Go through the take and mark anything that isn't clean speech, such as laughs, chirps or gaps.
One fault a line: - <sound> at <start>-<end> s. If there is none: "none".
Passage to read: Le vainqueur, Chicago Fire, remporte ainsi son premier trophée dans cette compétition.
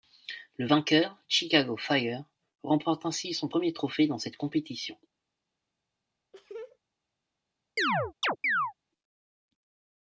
- laugh at 6.3-6.8 s
- chirp at 7.8-8.7 s